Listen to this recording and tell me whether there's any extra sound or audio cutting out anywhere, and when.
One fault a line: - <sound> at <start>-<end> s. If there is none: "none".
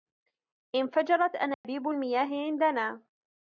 - dropout at 1.5-1.6 s